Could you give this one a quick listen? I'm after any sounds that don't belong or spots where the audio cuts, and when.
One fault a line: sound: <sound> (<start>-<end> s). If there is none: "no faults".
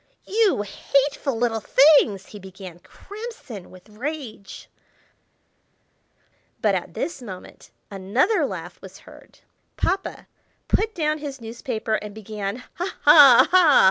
no faults